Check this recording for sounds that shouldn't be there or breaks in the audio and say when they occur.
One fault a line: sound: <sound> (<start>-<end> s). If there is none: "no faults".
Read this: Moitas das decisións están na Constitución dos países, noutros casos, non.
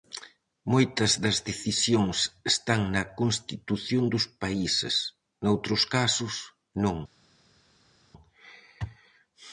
no faults